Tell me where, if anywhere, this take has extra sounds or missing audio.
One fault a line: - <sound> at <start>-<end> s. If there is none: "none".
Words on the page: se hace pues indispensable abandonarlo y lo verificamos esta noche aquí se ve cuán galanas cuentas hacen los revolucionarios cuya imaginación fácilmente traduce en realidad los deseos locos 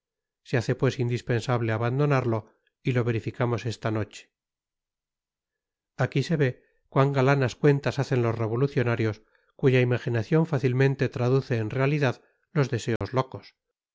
- dropout at 13.0-13.0 s